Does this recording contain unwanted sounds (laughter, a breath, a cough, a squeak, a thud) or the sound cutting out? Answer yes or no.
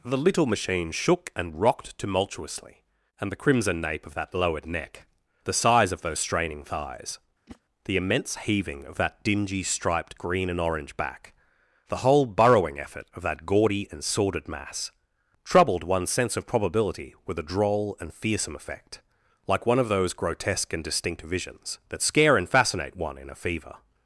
yes